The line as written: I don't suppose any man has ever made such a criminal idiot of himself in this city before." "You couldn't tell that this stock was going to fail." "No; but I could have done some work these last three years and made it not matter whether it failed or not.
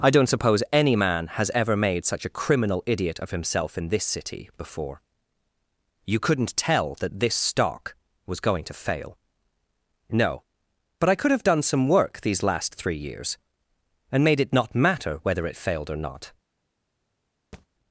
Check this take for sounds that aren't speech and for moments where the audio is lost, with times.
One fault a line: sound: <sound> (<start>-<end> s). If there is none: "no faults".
sound: thud (17.5-17.7 s)